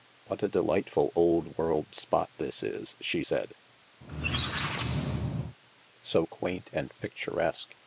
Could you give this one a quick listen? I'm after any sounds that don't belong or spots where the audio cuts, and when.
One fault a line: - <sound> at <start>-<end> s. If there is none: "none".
- squeak at 4.0-5.6 s